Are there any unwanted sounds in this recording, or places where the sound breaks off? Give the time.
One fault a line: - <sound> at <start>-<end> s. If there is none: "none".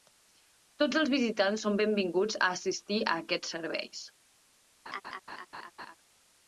- laugh at 4.9-6.0 s